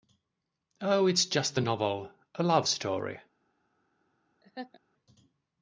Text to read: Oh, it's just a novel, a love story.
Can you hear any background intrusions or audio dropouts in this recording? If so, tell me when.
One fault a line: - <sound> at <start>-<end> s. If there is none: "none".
- laugh at 4.4-4.8 s